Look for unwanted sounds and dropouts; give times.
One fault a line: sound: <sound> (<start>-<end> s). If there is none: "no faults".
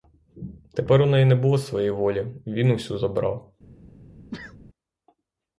sound: sneeze (4.3-4.6 s)